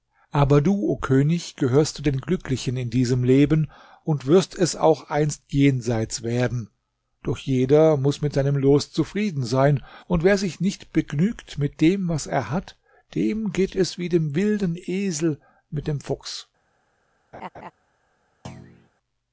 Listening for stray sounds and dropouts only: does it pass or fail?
fail